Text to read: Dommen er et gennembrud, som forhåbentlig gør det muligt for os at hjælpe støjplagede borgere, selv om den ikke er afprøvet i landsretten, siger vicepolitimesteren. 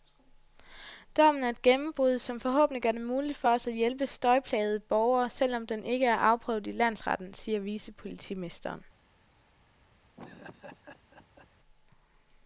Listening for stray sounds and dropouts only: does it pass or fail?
fail